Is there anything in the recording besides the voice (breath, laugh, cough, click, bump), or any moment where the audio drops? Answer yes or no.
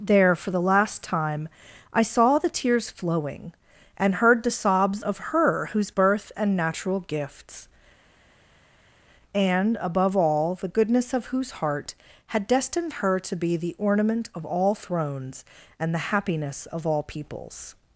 no